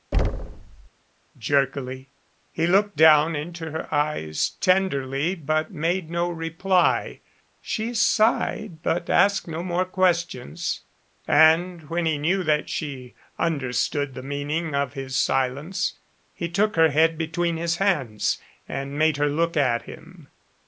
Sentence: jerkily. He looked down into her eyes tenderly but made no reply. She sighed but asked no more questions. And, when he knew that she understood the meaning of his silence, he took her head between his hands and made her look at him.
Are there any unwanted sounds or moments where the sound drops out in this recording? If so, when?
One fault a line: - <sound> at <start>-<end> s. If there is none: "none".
- thud at 0.1-0.9 s